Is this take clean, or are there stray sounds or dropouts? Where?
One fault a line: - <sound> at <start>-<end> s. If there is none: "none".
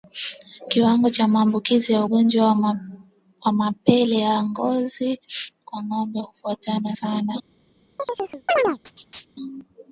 - chirp at 8.0-9.3 s